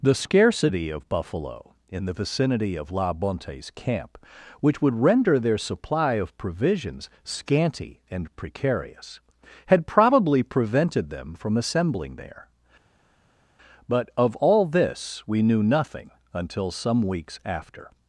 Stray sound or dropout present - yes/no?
no